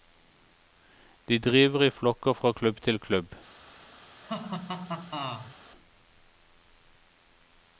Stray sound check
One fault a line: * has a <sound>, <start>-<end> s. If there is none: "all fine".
* has a laugh, 4.2-5.6 s